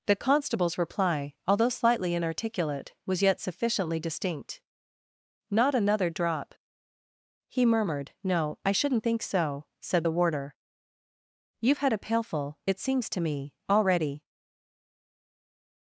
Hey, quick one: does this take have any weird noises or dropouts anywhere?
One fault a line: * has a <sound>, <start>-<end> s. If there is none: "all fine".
all fine